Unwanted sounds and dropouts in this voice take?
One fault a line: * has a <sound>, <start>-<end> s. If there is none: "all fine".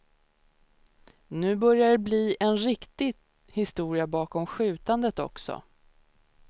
all fine